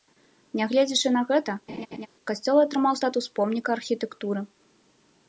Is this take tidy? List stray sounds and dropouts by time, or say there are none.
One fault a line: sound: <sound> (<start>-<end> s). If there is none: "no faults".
sound: laugh (1.7-2.1 s)